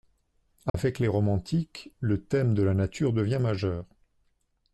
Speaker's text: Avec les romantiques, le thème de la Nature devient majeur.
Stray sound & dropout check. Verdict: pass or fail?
fail